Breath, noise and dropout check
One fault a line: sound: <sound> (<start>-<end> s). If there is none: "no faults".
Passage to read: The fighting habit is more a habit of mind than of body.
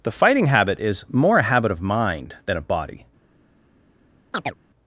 sound: chirp (4.3-4.5 s)